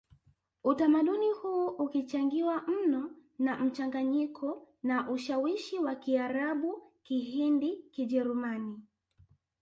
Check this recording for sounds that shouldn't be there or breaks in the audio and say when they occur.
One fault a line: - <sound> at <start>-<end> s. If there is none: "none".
none